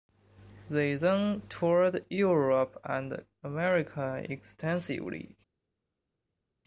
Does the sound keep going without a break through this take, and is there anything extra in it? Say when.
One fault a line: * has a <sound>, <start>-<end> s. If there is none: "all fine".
all fine